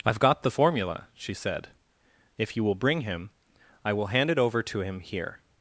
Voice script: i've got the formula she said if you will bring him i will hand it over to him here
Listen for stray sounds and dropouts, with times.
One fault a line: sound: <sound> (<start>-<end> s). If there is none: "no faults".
no faults